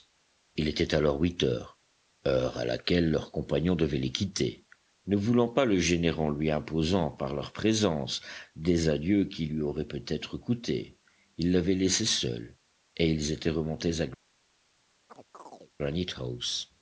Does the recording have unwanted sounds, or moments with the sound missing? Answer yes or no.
yes